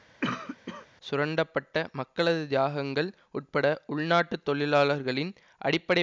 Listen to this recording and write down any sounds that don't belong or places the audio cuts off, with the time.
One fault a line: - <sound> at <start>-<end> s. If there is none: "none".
- cough at 0.2-0.9 s